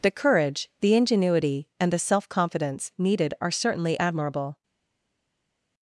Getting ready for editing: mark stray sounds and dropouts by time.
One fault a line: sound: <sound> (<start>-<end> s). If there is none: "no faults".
no faults